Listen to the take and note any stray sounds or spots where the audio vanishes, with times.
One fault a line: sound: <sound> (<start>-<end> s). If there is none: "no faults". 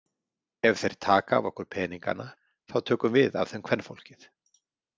no faults